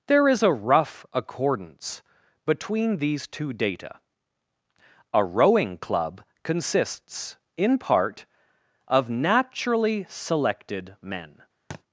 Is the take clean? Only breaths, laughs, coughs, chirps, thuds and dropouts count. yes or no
no